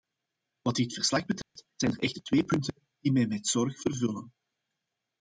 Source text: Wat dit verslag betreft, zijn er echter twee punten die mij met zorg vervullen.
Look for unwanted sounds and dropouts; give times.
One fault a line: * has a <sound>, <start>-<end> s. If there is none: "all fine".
* has a dropout, 1.4-1.6 s